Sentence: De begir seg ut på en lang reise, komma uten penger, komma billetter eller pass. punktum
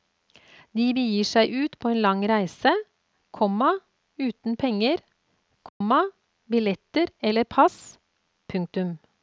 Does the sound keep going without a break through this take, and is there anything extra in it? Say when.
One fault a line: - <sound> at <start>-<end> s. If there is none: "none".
- dropout at 5.7-5.8 s